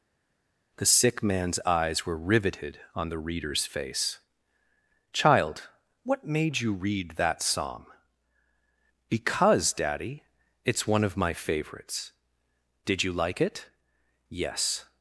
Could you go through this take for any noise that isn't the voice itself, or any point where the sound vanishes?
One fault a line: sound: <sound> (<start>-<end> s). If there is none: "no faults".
no faults